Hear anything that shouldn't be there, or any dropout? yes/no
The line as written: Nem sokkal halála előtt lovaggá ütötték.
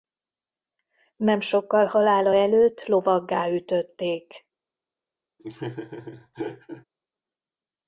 yes